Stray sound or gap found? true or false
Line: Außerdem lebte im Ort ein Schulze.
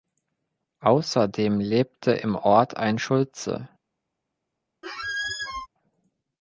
true